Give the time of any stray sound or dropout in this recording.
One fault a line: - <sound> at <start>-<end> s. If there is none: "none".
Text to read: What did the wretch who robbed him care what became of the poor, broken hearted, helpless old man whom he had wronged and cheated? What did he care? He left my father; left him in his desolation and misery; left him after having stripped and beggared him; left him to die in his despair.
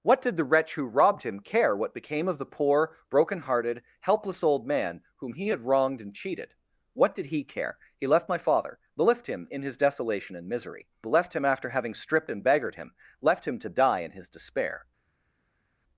none